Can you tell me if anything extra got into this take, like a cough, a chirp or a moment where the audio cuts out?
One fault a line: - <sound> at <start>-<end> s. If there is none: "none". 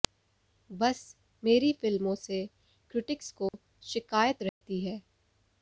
- dropout at 3.5-3.5 s
- dropout at 4.5-4.6 s